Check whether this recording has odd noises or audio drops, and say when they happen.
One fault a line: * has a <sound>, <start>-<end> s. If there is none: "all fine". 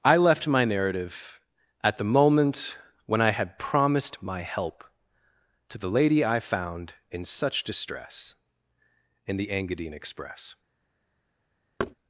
* has a thud, 11.8-12.0 s